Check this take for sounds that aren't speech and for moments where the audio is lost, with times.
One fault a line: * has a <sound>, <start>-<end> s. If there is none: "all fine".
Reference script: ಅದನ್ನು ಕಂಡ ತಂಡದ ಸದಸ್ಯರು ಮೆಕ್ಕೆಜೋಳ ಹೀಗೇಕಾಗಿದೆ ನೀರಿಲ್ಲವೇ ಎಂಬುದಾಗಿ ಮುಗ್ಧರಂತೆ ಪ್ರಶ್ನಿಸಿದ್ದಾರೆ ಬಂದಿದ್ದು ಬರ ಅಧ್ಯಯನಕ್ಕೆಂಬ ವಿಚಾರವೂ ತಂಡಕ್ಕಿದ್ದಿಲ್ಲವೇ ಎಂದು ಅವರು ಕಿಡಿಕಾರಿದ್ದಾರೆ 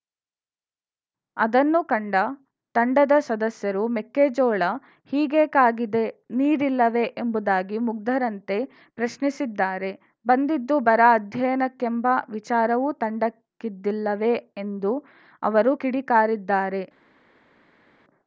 all fine